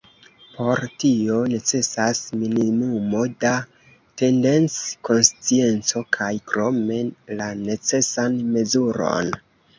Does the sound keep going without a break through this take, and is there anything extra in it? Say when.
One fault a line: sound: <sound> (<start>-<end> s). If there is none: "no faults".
no faults